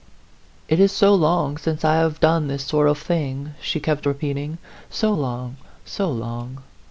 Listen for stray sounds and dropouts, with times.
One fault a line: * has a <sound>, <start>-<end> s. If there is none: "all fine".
all fine